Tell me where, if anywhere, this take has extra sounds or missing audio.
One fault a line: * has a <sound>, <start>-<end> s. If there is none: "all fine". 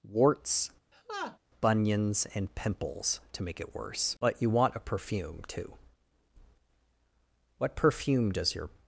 * has a laugh, 0.9-1.4 s